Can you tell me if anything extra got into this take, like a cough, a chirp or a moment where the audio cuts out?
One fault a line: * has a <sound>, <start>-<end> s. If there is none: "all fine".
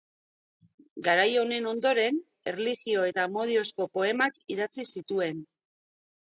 all fine